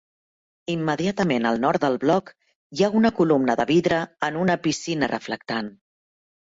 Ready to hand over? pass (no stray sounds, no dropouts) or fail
pass